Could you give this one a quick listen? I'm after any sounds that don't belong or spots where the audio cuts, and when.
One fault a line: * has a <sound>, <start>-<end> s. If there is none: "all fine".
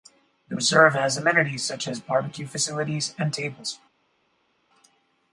all fine